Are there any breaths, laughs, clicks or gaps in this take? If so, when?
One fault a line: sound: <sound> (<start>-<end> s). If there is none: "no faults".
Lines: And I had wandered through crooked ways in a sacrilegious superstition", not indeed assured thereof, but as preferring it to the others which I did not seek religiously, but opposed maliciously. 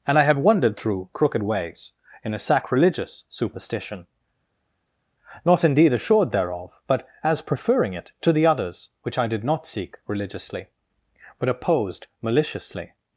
no faults